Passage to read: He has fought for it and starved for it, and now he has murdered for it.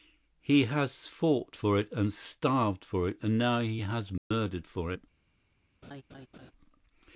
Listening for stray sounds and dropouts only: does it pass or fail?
fail